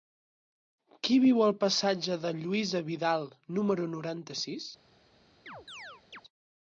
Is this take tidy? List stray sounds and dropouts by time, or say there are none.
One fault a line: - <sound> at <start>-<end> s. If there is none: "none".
- chirp at 5.5-6.2 s